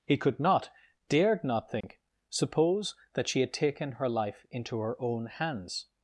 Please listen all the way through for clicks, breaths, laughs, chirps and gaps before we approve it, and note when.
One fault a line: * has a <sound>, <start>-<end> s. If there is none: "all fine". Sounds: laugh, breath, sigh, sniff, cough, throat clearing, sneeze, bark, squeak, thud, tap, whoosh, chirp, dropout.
* has a dropout, 1.8-1.8 s